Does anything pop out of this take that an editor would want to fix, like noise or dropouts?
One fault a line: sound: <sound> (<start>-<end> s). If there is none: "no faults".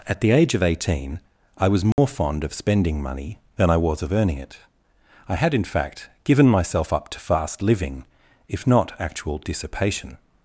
sound: dropout (1.9-2.0 s)